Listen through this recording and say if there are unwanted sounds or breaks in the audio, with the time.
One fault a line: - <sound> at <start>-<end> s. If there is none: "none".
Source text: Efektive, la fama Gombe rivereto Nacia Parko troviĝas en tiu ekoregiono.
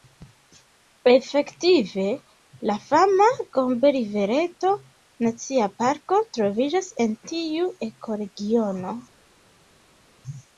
none